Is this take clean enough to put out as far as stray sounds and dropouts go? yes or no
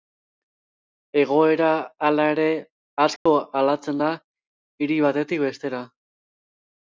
no